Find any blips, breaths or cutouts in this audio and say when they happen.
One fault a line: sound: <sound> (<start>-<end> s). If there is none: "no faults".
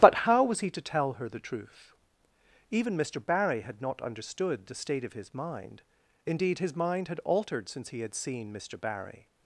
no faults